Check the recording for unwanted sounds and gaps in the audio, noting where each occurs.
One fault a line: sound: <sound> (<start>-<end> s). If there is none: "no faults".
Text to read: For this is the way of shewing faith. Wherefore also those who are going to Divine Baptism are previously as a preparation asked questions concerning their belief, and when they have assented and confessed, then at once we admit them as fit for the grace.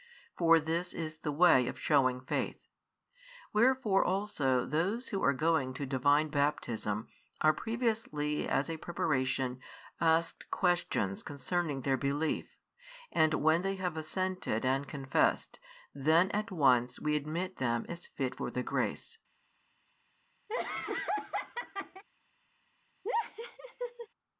sound: laugh (20.5-22.0 s)
sound: laugh (23.0-24.1 s)